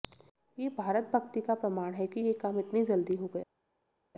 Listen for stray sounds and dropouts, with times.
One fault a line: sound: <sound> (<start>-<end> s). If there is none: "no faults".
no faults